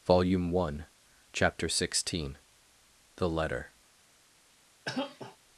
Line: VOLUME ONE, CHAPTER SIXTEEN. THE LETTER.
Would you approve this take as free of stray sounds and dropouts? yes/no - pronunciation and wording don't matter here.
no